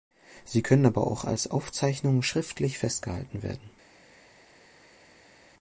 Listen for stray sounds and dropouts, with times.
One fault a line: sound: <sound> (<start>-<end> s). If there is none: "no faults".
no faults